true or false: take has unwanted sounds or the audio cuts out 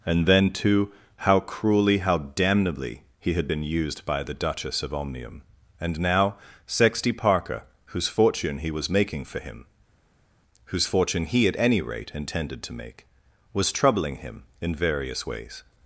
false